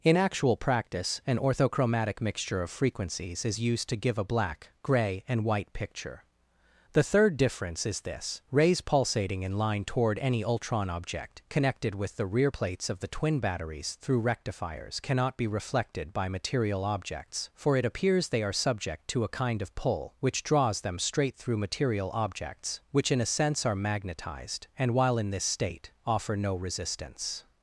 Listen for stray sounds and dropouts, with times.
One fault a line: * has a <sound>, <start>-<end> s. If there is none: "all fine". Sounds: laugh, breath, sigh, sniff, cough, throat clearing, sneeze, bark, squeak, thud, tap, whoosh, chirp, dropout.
all fine